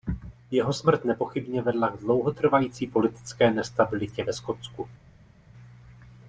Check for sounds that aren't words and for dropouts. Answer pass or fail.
pass